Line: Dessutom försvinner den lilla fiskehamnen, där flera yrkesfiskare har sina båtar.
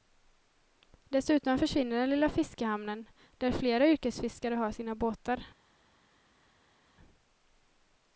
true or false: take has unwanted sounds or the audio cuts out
false